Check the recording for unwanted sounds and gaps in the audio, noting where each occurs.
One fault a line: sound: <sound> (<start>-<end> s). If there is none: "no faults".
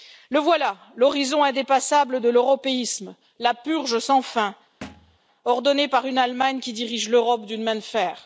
sound: thud (4.8-5.2 s)